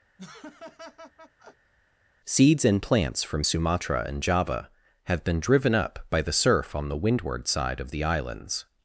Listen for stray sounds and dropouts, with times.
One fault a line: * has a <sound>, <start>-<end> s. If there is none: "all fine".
* has a laugh, 0.2-1.7 s